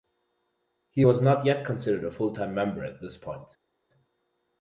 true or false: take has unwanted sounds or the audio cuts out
false